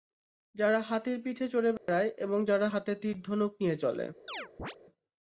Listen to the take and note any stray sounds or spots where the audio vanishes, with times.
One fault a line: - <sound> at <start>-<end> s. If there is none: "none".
- dropout at 1.8-1.9 s
- chirp at 4.3-4.8 s